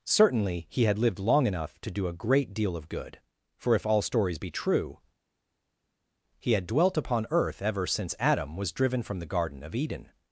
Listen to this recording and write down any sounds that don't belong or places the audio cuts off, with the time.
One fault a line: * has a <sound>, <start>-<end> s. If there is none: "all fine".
all fine